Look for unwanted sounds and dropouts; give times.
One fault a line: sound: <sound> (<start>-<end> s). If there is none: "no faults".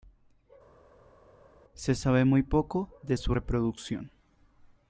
no faults